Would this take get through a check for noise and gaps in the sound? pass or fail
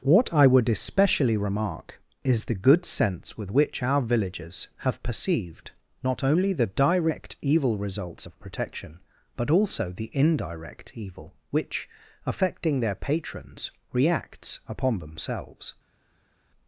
pass